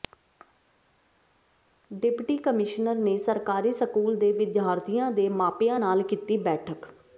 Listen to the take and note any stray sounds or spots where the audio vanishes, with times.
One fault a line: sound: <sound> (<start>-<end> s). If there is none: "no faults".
no faults